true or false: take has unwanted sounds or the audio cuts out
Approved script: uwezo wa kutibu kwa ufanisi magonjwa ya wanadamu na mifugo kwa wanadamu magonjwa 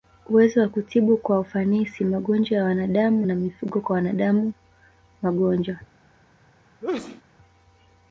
true